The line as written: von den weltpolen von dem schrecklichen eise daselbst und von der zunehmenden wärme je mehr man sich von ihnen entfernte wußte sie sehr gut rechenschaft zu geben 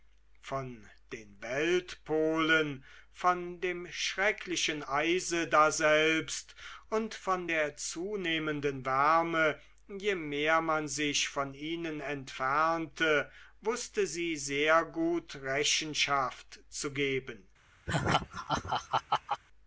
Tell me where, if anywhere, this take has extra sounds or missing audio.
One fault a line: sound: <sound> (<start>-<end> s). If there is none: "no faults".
sound: laugh (17.9-19.4 s)